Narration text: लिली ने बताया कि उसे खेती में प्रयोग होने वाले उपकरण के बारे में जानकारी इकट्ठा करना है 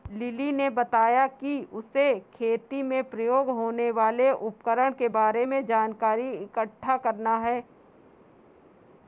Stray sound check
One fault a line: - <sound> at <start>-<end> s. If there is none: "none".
none